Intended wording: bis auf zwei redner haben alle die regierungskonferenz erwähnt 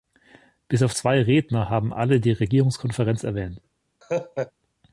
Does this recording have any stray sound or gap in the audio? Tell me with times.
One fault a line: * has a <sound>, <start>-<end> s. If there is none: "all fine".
* has a laugh, 4.0-4.5 s